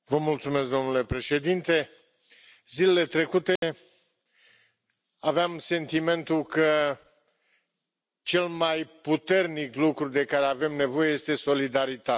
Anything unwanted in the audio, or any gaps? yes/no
yes